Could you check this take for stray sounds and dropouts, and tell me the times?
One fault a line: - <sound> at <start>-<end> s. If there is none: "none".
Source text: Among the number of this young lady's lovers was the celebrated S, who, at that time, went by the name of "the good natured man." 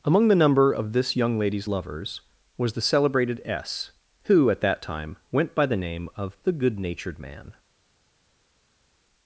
none